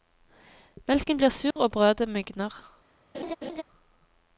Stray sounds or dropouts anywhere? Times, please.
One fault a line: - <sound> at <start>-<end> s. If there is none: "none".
- dropout at 1.5-1.6 s
- laugh at 3.1-3.6 s